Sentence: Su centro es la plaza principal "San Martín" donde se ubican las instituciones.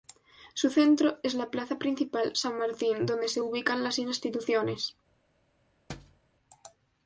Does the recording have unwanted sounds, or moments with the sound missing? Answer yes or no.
yes